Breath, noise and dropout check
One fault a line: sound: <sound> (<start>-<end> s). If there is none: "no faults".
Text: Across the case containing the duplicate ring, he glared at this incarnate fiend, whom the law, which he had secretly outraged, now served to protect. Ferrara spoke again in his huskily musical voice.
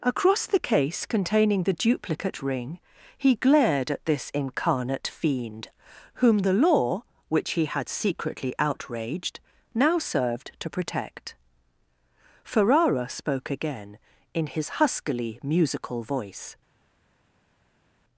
no faults